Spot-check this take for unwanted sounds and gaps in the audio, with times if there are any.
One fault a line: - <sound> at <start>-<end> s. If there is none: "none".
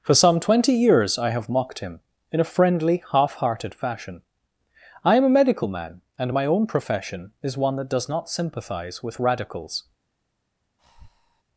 - breath at 10.8-11.4 s